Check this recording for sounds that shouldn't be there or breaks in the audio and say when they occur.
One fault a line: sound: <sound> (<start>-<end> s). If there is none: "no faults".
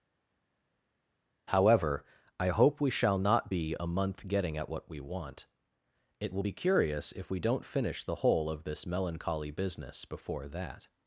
no faults